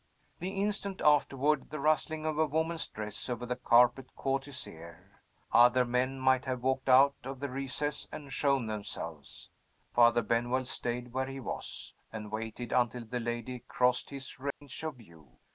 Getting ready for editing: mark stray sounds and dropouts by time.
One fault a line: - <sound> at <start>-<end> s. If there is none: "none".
- dropout at 14.5-14.6 s